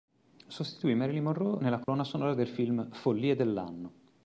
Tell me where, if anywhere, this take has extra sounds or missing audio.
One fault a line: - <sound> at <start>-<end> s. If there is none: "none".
- dropout at 1.8-1.9 s